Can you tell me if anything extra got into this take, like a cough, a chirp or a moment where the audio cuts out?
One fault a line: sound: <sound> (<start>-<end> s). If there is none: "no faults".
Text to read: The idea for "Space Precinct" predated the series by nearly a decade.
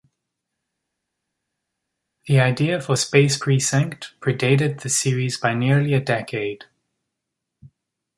no faults